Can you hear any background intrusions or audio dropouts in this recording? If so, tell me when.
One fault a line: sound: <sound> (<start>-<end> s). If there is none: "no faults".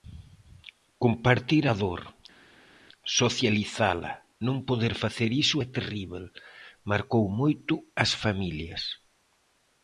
no faults